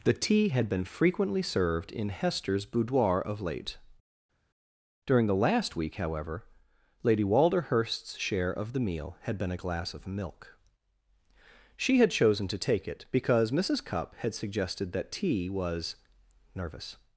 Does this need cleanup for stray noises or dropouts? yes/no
no